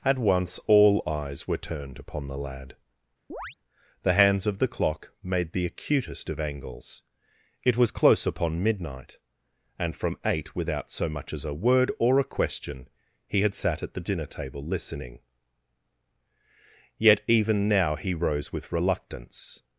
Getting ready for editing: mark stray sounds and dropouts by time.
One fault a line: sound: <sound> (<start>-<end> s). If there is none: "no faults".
sound: chirp (3.3-3.6 s)